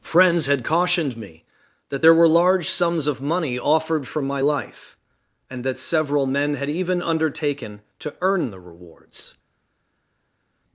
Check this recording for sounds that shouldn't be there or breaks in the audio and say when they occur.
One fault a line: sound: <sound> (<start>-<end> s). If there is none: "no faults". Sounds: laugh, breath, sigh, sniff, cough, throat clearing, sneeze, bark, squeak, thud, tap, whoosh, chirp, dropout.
no faults